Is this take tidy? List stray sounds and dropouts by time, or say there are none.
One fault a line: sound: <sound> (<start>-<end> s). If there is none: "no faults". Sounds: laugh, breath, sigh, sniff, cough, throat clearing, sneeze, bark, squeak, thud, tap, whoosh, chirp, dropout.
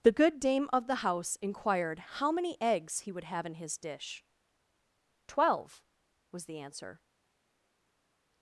no faults